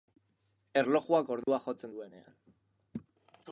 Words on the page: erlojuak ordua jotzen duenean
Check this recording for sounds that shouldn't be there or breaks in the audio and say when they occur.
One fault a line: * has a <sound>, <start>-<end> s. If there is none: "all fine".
* has a dropout, 1.4-1.5 s